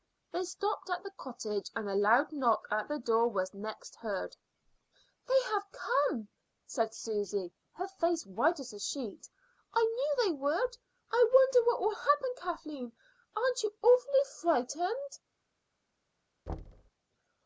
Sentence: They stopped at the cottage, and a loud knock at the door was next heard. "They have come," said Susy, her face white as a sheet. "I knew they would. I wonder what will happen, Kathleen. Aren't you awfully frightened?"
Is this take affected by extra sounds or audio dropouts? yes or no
yes